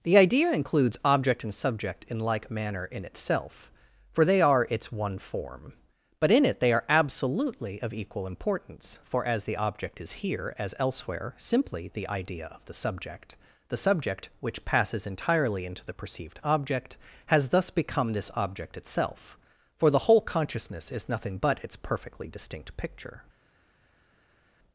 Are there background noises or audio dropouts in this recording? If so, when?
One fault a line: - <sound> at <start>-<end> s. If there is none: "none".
none